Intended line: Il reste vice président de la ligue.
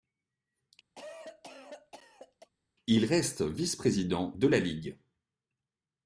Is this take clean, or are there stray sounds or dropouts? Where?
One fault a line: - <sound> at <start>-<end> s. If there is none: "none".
- cough at 1.0-2.5 s